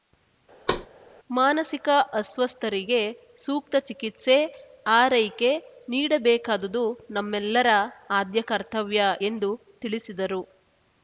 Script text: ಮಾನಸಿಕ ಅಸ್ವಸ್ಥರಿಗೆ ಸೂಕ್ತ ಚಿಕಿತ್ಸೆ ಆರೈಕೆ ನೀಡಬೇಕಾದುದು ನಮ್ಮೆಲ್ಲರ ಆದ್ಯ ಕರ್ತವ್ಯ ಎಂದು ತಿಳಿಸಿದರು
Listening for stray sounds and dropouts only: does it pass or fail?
fail